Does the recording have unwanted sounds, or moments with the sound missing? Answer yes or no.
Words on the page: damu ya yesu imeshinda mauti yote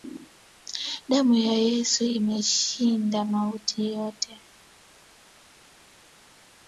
no